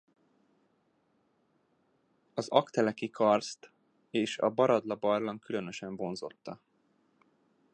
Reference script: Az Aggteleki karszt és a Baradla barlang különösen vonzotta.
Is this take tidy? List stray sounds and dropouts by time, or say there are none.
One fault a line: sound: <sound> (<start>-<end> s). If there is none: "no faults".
no faults